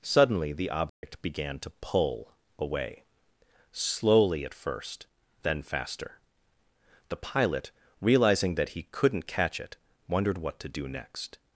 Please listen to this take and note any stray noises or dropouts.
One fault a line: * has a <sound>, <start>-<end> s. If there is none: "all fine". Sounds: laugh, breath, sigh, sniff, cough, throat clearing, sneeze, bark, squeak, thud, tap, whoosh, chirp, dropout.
* has a dropout, 0.9-1.0 s